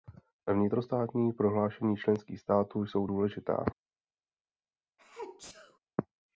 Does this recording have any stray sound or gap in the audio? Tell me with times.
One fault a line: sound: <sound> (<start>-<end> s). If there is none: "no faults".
sound: sneeze (5.0-5.8 s)